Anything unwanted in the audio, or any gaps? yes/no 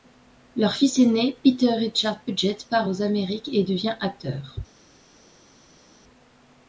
no